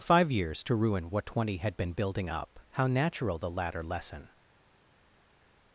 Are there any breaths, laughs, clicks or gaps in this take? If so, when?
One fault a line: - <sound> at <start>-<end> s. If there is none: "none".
none